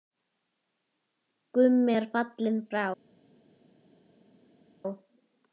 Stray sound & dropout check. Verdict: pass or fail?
pass